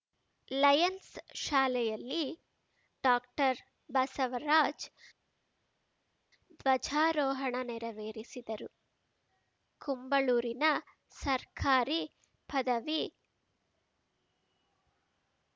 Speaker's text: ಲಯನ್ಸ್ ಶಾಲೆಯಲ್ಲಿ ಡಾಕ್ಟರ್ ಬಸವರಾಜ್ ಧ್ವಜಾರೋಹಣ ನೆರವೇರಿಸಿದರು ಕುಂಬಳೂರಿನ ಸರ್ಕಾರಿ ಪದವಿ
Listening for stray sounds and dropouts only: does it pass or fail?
pass